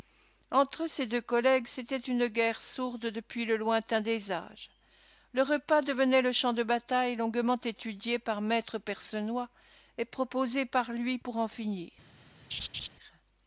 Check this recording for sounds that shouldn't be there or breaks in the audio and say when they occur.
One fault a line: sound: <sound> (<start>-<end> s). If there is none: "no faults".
sound: laugh (12.5-12.9 s)